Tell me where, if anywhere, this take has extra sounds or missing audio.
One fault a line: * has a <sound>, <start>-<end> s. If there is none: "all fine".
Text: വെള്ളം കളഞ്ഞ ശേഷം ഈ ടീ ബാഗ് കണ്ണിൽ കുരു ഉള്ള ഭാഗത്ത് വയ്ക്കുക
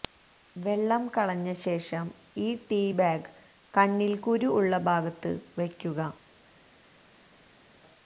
all fine